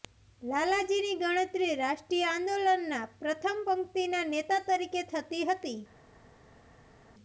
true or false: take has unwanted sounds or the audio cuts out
false